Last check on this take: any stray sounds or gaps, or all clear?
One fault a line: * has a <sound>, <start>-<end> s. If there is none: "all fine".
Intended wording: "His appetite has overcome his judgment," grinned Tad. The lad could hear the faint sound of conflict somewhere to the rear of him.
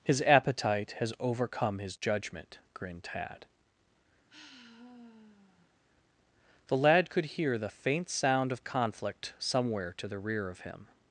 * has a sigh, 4.3-5.7 s